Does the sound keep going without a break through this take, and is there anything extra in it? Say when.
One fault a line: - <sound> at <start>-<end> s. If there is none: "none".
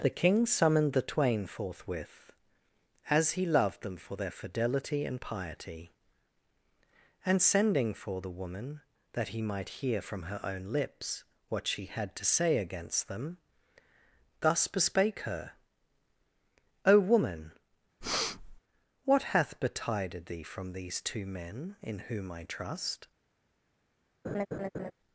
- breath at 18.0-18.6 s
- laugh at 24.2-24.9 s